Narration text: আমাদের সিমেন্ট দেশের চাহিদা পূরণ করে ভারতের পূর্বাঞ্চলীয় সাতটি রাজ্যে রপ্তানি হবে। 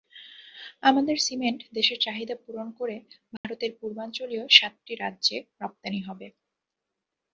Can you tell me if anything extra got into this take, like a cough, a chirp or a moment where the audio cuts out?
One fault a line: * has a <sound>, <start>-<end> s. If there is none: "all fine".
* has a dropout, 3.4-3.4 s